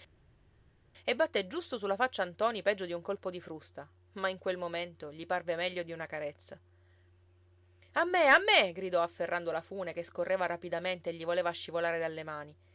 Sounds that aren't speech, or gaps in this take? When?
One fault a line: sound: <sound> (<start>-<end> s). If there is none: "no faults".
no faults